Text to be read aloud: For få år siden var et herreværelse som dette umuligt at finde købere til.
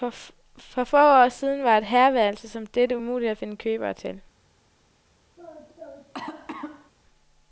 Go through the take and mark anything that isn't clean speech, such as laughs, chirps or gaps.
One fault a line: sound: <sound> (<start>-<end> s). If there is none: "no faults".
sound: cough (5.4-6.9 s)